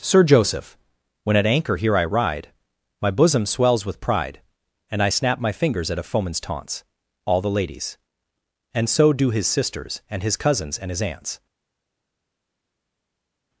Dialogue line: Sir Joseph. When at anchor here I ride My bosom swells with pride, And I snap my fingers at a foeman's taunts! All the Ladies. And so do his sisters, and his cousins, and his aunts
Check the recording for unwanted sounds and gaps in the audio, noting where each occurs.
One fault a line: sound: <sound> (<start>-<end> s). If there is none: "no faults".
no faults